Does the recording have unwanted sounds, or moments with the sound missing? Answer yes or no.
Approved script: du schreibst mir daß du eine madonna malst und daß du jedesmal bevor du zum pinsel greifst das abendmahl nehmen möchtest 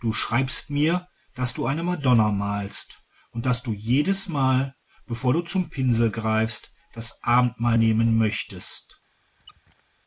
yes